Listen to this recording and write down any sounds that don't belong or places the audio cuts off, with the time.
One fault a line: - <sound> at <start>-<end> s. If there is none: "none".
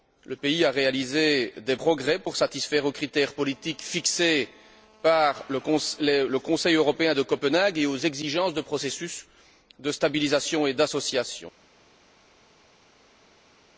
none